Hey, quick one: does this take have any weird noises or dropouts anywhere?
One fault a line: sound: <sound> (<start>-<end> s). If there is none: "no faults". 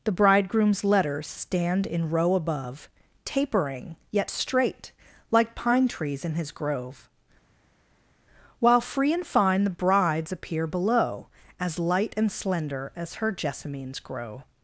no faults